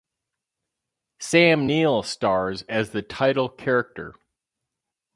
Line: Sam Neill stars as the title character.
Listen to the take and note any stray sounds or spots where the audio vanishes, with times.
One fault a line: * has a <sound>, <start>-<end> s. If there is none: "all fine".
all fine